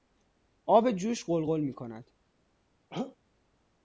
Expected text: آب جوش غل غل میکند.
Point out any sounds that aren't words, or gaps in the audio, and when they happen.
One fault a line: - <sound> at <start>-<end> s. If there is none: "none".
- throat clearing at 2.9-3.2 s